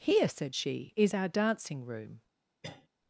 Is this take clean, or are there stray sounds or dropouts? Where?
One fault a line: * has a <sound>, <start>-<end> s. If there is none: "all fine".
* has a cough, 2.6-2.9 s